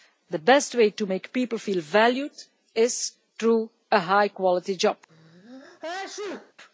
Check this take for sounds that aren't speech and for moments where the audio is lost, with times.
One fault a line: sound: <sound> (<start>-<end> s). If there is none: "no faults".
sound: sneeze (5.1-6.5 s)